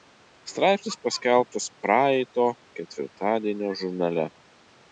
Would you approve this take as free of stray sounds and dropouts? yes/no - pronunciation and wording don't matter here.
yes